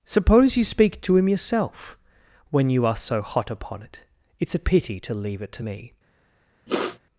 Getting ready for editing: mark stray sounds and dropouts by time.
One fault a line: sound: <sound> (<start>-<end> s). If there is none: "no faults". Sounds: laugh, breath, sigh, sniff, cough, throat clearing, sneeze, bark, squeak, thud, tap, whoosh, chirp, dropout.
sound: sniff (6.7-7.0 s)